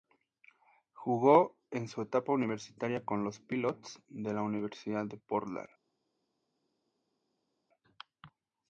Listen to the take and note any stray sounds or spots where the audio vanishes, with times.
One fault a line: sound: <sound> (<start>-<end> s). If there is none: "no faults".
no faults